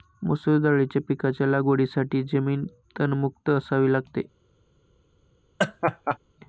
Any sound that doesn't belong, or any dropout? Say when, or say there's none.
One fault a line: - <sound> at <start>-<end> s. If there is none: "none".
- laugh at 5.6-6.2 s